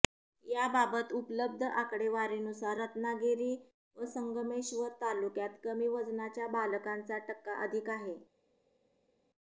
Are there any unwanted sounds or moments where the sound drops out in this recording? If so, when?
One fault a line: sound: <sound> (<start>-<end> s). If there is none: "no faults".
no faults